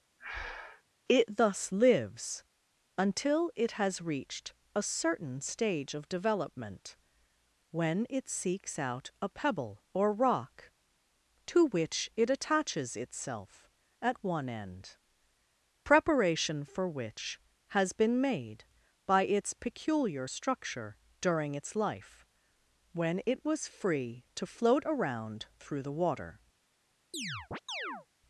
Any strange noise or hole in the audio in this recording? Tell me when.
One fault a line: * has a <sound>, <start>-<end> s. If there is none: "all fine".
* has a breath, 0.2-0.8 s
* has a chirp, 27.1-28.1 s